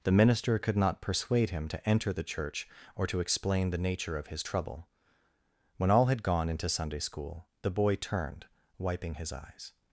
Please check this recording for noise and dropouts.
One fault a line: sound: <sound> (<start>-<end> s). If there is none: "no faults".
no faults